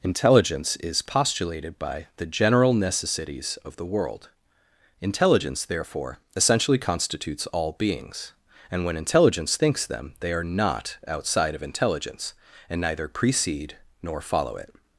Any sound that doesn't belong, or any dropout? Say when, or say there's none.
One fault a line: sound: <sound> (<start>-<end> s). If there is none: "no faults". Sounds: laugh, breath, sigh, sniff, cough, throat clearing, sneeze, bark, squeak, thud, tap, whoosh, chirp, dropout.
no faults